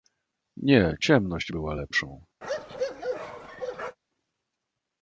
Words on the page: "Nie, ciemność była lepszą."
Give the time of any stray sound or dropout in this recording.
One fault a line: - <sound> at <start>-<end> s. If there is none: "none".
- bark at 2.4-4.0 s